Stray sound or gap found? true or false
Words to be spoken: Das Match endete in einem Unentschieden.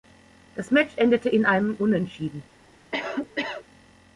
true